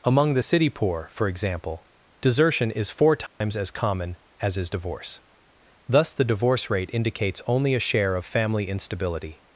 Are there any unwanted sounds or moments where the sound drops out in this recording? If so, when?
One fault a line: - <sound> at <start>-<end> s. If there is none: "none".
- dropout at 3.3-3.4 s